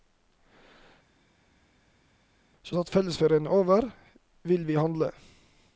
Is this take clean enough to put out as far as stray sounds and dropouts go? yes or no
yes